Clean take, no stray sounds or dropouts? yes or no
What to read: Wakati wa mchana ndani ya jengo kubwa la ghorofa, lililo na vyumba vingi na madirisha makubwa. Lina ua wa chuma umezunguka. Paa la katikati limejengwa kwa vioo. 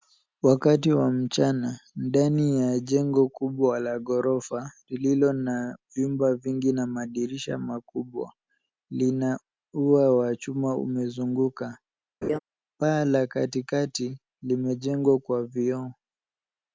no